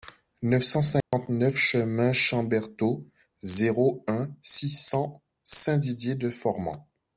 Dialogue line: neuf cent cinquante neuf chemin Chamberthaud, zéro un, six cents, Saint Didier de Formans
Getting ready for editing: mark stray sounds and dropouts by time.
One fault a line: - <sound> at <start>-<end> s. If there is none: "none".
- dropout at 1.0-1.1 s